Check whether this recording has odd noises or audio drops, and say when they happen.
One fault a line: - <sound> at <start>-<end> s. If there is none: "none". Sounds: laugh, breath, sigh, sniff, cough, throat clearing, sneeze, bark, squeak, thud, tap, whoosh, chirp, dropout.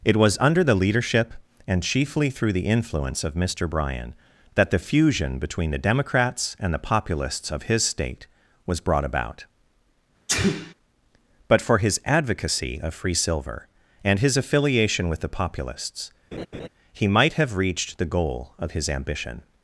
- sneeze at 10.3-10.7 s
- laugh at 16.3-16.7 s